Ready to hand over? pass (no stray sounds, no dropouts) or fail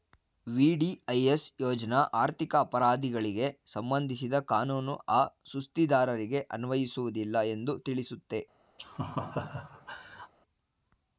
fail